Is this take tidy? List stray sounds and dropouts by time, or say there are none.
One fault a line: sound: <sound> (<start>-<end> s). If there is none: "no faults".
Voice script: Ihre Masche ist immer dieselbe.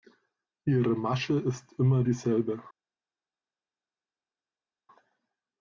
no faults